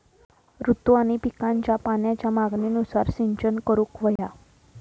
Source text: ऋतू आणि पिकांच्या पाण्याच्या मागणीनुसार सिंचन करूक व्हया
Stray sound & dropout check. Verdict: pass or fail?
fail